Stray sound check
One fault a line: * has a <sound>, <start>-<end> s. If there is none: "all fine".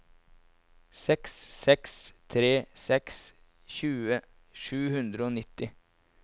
all fine